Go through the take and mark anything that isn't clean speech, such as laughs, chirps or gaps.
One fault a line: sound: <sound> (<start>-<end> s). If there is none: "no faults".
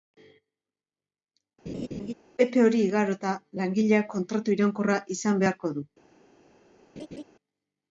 sound: laugh (1.7-2.1 s)
sound: laugh (7.0-7.2 s)